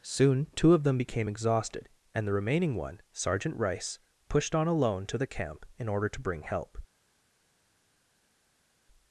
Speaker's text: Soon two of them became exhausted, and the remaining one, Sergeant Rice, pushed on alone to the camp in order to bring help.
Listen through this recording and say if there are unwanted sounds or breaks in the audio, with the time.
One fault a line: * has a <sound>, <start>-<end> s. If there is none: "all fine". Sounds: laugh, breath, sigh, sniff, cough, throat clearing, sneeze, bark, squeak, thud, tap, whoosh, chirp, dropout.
all fine